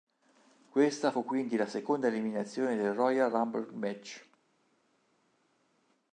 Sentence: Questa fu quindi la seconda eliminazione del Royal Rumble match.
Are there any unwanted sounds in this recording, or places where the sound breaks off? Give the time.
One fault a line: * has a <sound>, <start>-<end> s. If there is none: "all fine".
all fine